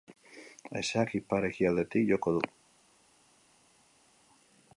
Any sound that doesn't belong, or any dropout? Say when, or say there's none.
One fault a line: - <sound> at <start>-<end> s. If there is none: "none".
none